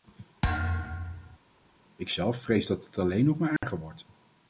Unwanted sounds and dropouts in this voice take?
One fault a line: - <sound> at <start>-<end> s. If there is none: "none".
- thud at 0.4-1.4 s
- dropout at 3.6-3.6 s